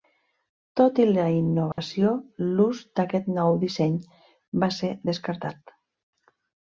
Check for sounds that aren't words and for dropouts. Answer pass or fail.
fail